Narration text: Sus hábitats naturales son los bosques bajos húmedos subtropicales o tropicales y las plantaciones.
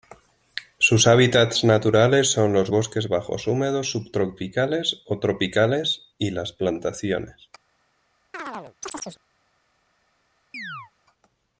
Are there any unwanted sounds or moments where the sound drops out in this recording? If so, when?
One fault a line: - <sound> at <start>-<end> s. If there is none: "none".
- chirp at 8.3-9.2 s
- chirp at 10.5-10.9 s